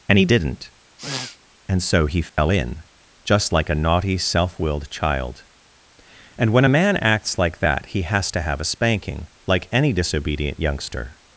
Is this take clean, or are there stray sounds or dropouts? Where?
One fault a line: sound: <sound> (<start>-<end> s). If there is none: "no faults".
sound: sniff (1.0-1.4 s)
sound: dropout (2.3-2.4 s)